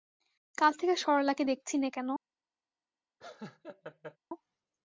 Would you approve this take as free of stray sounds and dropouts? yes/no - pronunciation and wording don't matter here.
no